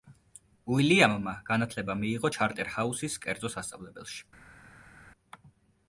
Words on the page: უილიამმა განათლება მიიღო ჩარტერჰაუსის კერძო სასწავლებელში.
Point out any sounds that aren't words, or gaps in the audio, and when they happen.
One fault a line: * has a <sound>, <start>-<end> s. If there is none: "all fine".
all fine